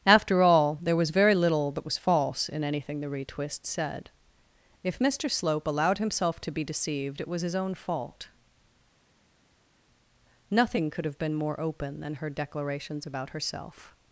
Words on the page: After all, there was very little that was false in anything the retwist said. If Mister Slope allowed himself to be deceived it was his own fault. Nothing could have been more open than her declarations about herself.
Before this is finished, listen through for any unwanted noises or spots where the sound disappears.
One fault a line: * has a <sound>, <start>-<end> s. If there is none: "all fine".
all fine